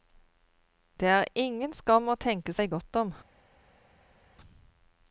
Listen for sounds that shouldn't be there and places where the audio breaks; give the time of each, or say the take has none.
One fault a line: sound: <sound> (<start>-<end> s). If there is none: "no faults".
no faults